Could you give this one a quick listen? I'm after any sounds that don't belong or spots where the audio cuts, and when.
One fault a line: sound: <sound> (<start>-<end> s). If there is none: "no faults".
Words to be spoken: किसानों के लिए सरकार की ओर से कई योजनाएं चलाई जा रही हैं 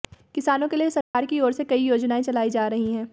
sound: dropout (1.0-1.1 s)